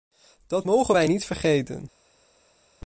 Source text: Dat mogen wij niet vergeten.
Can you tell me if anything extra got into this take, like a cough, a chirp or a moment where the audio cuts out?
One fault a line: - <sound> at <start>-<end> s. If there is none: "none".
none